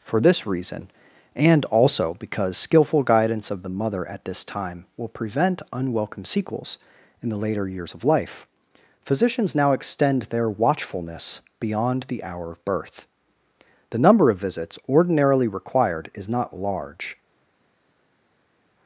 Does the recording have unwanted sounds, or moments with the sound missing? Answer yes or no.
no